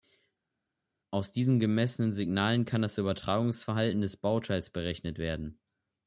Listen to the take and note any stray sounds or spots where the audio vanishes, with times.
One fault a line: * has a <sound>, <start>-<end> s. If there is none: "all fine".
all fine